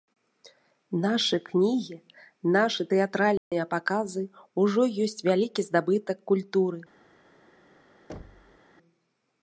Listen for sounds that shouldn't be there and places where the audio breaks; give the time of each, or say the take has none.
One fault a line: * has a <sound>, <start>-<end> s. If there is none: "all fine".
* has a dropout, 3.4-3.5 s
* has a thud, 8.1-8.6 s